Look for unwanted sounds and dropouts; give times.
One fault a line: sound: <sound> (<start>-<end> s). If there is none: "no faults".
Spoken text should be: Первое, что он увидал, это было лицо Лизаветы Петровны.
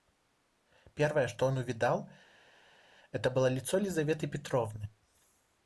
no faults